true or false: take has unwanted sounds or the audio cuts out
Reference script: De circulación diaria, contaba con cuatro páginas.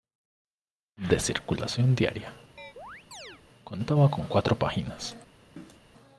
true